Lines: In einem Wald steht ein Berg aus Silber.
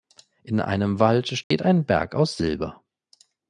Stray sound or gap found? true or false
true